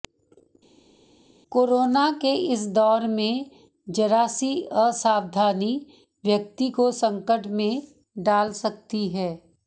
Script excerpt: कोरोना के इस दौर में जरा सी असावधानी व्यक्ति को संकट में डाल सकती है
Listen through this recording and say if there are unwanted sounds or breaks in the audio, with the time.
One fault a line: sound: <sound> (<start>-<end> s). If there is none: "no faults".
no faults